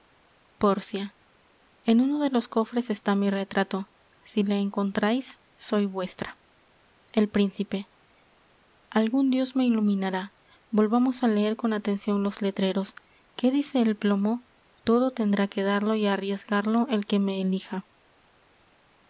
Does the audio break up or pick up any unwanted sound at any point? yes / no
no